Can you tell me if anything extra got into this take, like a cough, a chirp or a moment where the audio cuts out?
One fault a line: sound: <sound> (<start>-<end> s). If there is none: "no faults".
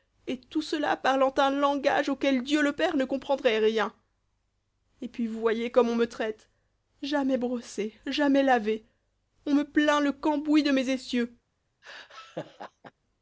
sound: laugh (11.8-12.9 s)